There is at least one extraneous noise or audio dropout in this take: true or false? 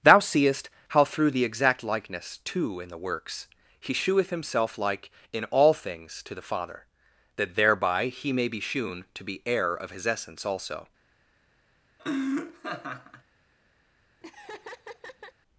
true